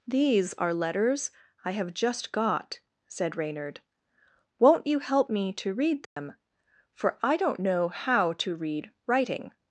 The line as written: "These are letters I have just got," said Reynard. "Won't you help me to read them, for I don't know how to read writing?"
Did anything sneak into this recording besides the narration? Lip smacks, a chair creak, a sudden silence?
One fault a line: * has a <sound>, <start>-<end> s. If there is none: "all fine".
* has a dropout, 6.1-6.2 s